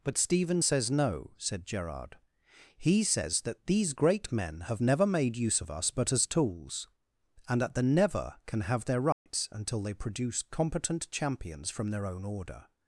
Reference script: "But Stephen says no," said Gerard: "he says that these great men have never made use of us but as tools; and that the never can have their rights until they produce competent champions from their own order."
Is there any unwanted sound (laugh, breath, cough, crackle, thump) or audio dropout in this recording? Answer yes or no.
yes